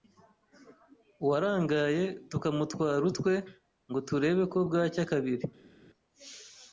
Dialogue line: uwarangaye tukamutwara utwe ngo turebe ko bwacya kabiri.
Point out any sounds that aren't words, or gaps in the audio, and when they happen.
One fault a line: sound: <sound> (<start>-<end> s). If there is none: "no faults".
no faults